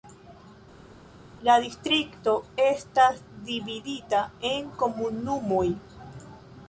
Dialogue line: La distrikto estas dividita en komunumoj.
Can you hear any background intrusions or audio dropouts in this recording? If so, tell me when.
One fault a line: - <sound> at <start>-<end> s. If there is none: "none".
none